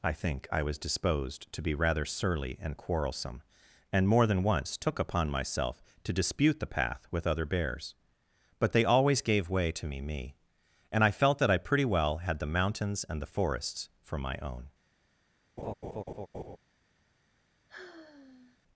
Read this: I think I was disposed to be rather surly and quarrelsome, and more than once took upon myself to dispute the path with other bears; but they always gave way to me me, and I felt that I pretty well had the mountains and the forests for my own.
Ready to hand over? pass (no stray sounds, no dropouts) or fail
fail